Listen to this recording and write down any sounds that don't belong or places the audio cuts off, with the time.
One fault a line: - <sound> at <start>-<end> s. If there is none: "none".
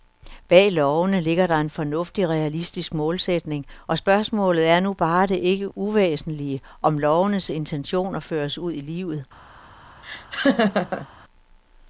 - laugh at 10.0-11.1 s